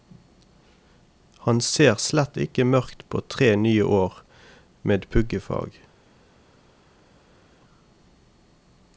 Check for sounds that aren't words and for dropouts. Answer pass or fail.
pass